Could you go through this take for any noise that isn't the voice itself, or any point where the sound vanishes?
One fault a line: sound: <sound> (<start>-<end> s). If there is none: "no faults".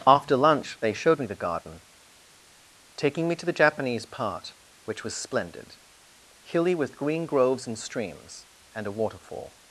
no faults